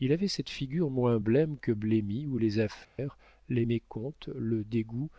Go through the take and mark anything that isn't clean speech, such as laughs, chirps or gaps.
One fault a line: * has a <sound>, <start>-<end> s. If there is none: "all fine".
* has a dropout, 2.8-3.0 s